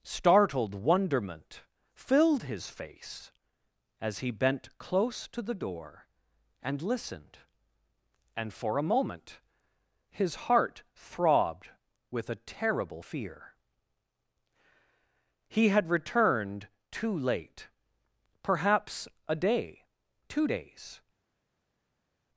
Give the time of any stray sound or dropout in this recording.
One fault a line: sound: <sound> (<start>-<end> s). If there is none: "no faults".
no faults